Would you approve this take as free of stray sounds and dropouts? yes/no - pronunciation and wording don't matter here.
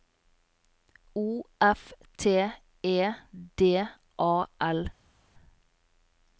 yes